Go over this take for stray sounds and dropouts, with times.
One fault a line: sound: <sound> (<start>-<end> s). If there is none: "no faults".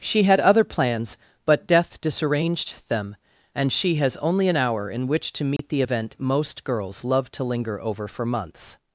sound: dropout (5.6-5.6 s)